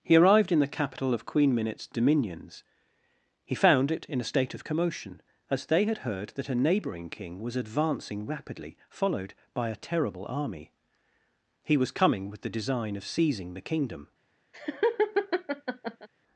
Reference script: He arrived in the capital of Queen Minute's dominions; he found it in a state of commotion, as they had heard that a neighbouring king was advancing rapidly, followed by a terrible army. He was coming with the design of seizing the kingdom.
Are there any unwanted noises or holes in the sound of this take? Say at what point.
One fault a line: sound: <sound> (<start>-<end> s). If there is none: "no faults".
sound: laugh (14.5-16.1 s)